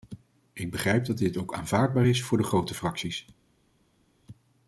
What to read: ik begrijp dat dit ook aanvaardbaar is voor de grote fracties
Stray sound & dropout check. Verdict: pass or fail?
pass